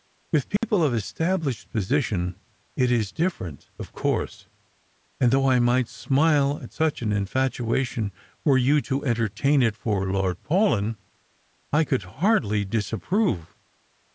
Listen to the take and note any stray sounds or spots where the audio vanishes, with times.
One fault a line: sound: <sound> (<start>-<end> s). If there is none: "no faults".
sound: dropout (0.6-0.6 s)